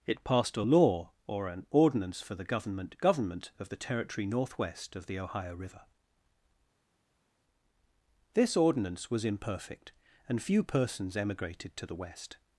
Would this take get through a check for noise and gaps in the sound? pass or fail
pass